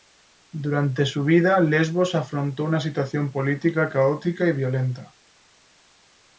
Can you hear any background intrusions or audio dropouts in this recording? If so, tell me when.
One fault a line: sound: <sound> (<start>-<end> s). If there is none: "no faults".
no faults